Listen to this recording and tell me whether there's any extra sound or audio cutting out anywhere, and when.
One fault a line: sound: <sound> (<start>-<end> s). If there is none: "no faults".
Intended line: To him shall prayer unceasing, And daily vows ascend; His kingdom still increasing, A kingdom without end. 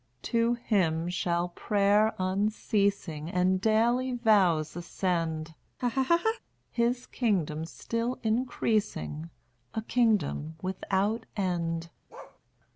sound: laugh (5.8-6.4 s)
sound: bark (12.1-12.4 s)